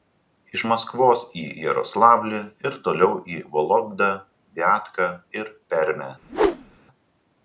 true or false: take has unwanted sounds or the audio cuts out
true